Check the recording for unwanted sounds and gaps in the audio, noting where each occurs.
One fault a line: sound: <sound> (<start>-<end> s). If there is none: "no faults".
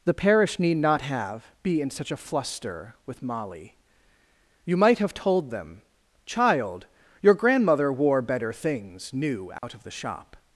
sound: dropout (9.6-9.6 s)